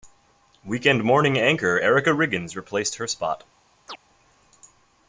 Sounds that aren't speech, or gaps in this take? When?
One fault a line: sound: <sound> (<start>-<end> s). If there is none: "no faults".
sound: chirp (3.9-4.0 s)